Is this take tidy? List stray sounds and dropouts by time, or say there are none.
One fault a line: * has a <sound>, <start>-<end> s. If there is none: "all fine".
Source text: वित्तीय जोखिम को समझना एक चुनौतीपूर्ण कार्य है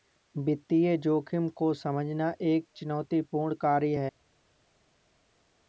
all fine